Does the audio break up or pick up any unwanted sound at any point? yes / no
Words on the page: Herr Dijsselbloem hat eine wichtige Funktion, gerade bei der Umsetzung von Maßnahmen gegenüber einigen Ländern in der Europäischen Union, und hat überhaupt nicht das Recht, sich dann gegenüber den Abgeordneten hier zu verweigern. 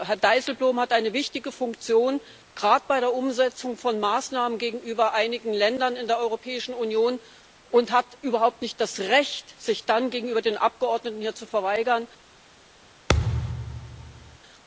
yes